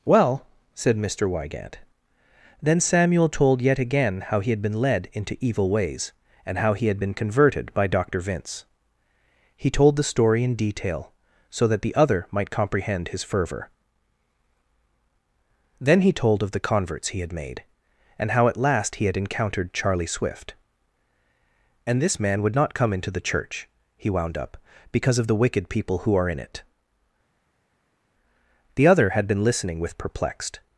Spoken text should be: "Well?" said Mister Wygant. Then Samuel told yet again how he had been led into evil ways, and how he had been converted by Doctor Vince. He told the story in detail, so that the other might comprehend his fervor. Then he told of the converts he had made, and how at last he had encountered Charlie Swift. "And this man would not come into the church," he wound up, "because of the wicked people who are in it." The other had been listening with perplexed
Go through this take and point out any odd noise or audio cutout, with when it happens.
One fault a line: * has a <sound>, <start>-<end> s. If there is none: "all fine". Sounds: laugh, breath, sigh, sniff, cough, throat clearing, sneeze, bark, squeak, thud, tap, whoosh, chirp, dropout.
all fine